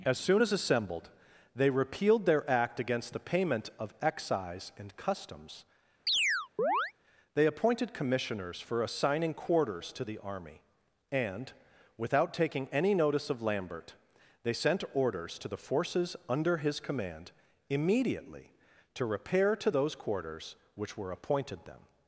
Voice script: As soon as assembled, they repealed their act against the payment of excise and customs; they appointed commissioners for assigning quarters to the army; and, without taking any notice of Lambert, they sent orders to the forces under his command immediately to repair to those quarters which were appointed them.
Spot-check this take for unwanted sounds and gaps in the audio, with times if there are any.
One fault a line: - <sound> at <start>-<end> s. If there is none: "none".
- chirp at 6.1-6.9 s